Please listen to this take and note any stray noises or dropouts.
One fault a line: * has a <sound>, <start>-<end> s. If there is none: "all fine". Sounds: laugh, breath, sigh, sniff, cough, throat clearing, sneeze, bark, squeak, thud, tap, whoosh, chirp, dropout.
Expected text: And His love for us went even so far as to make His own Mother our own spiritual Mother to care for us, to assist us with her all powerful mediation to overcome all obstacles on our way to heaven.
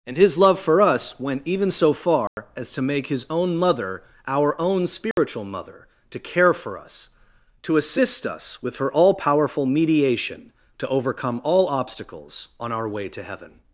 * has a dropout, 2.3-2.4 s
* has a dropout, 5.1-5.2 s